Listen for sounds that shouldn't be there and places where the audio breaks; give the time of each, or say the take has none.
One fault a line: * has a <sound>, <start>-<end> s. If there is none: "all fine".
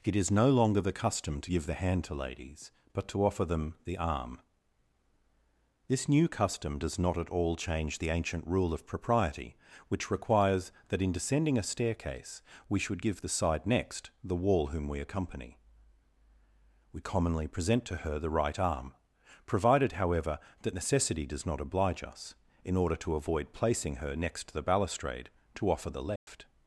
* has a dropout, 26.2-26.3 s